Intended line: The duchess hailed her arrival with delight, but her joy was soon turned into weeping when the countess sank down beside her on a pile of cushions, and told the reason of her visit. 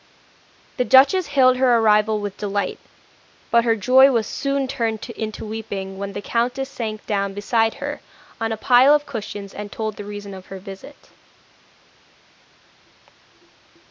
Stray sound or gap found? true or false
false